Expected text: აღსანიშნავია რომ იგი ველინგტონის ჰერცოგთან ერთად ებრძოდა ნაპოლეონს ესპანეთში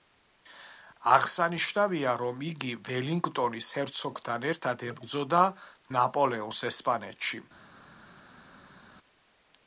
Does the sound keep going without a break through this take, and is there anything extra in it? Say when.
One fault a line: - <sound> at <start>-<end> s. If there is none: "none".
none